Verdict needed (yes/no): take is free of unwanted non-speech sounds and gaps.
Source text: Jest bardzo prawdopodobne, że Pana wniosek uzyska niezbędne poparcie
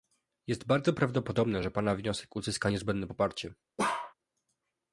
no